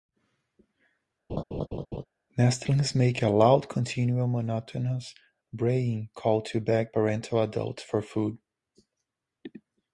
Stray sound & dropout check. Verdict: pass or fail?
fail